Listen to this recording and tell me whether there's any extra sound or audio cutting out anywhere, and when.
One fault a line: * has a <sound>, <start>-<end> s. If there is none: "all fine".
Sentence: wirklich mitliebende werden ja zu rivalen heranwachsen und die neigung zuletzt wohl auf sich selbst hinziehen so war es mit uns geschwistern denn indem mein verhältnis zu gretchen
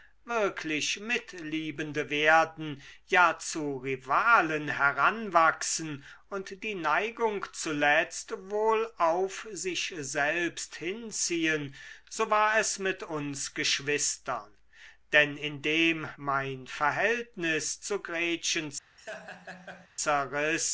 * has a laugh, 19.0-19.9 s